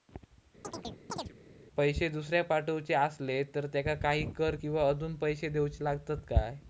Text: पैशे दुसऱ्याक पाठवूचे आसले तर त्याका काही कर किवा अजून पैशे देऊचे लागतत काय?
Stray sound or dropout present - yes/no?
yes